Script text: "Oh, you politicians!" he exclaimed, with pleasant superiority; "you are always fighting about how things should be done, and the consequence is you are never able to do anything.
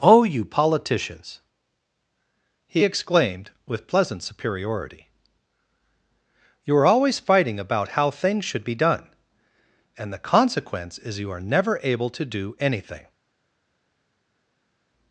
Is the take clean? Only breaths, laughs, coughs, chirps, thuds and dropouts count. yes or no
yes